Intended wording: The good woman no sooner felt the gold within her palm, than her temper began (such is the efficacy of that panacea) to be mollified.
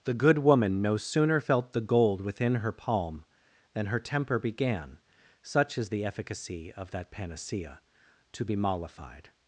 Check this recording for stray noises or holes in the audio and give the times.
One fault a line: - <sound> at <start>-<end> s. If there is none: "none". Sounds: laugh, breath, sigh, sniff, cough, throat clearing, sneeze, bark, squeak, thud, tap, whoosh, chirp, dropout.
none